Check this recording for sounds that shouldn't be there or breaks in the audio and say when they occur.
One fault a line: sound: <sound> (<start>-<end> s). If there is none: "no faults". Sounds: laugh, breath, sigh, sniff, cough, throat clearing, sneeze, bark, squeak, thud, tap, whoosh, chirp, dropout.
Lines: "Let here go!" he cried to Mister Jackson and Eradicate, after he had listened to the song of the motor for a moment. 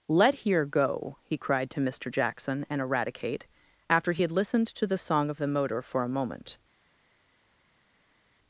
no faults